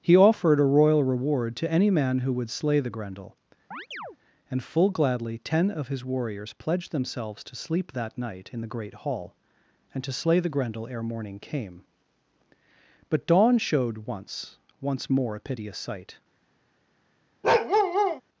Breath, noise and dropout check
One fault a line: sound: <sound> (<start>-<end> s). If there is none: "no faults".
sound: chirp (3.7-4.2 s)
sound: bark (17.4-18.2 s)